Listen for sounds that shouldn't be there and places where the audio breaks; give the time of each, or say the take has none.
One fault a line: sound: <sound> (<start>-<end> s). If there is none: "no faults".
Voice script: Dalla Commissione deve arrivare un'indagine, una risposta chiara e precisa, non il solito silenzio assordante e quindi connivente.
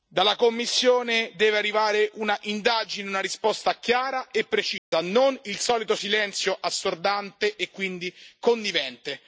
sound: dropout (4.8-4.9 s)